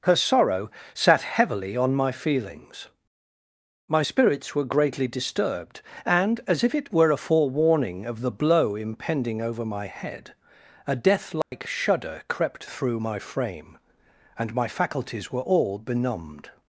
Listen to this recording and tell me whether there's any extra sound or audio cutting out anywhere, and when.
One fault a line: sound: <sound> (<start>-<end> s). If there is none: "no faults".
sound: dropout (11.4-11.5 s)